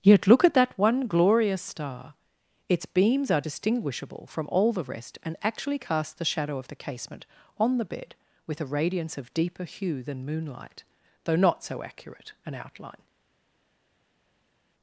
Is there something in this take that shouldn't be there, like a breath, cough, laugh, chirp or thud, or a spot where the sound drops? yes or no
no